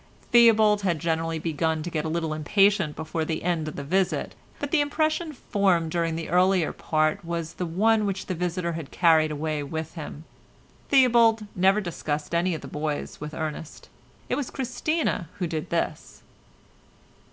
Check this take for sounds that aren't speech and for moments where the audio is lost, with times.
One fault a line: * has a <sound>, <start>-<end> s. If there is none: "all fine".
all fine